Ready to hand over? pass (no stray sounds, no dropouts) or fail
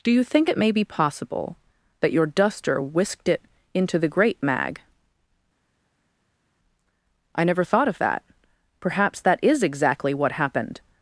pass